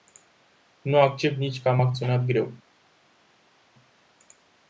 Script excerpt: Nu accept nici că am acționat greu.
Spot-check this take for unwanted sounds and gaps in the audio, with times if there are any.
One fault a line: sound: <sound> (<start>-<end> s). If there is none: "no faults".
no faults